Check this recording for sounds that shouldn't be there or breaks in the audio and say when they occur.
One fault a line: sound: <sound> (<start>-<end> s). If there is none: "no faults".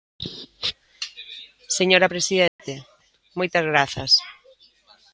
sound: dropout (2.5-2.6 s)